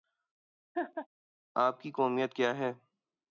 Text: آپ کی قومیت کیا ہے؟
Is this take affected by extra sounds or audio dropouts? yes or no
yes